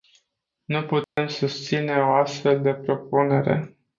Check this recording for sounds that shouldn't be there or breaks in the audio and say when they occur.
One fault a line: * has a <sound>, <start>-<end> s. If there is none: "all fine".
* has a dropout, 1.0-1.2 s